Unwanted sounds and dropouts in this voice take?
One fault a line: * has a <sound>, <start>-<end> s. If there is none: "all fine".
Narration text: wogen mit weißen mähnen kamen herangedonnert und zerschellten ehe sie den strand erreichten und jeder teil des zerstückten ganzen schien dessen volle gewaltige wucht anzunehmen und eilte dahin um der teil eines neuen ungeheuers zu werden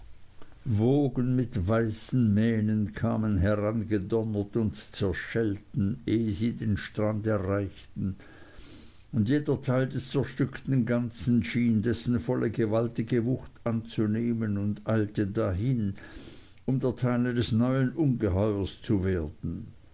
all fine